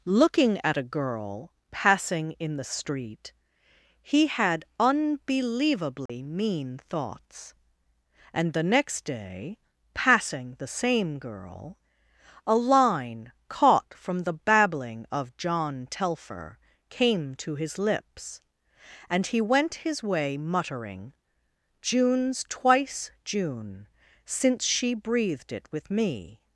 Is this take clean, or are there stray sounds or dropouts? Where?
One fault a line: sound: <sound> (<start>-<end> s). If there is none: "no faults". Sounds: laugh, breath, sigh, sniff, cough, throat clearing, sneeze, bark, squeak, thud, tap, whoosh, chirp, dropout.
sound: dropout (6.1-6.1 s)